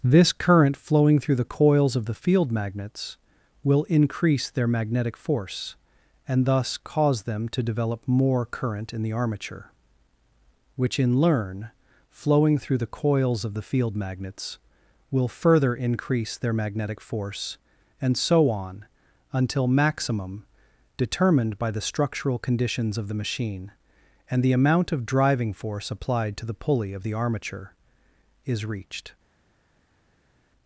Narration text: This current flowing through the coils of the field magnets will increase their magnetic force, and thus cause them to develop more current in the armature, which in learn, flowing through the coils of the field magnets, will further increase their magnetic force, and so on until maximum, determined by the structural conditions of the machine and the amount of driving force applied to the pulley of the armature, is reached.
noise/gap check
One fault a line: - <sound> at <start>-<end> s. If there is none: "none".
none